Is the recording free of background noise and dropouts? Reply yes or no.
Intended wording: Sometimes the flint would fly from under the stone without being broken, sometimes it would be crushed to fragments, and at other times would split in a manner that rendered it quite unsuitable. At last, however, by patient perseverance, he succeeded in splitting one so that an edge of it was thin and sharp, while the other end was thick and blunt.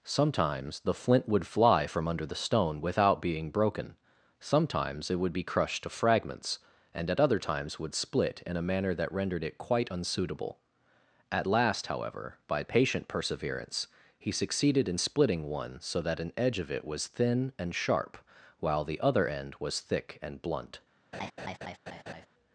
no